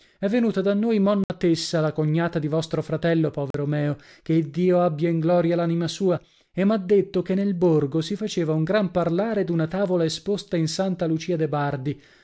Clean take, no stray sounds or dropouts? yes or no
no